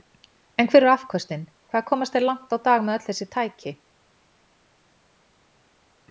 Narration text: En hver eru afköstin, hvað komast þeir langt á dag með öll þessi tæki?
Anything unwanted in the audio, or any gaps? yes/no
no